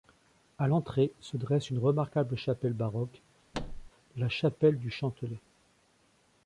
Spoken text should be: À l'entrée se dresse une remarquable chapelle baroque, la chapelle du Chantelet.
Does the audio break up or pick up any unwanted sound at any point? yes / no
yes